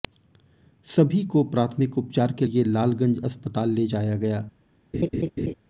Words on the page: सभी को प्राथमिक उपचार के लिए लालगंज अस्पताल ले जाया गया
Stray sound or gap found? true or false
true